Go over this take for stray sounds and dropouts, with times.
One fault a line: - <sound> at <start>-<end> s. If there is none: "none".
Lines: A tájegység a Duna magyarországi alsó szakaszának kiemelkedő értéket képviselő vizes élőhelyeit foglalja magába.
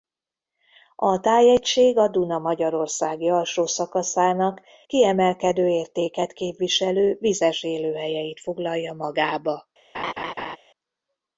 - laugh at 9.9-10.6 s